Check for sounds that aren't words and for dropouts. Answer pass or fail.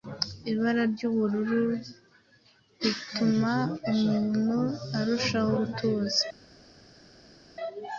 pass